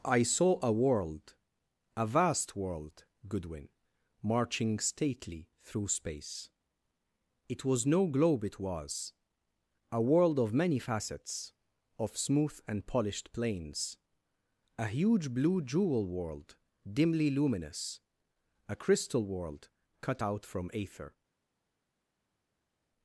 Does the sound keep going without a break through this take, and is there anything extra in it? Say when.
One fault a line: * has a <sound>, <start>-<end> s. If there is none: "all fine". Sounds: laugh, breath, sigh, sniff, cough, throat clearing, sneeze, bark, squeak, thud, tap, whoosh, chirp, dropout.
all fine